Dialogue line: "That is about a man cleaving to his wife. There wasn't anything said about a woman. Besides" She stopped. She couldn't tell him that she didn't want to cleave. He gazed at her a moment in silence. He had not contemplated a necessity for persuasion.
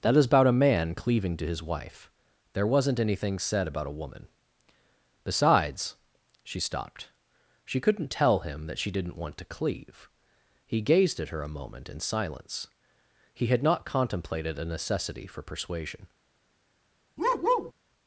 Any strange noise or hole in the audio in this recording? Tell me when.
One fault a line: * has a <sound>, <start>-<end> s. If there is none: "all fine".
* has a bark, 17.2-17.7 s